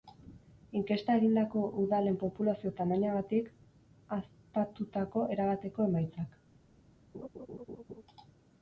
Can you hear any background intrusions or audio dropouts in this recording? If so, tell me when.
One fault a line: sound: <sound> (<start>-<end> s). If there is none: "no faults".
sound: laugh (7.1-8.0 s)